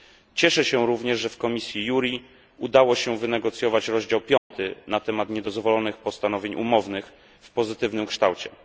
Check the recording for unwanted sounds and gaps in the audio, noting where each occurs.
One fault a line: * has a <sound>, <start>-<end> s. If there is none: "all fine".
* has a dropout, 4.4-4.5 s